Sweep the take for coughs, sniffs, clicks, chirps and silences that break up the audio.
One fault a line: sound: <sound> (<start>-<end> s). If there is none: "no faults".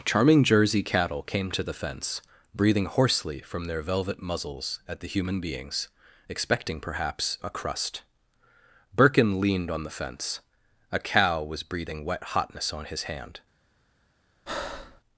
sound: breath (14.5-15.0 s)